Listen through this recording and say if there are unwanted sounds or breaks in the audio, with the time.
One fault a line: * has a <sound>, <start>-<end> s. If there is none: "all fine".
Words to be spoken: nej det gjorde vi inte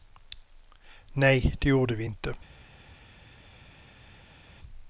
all fine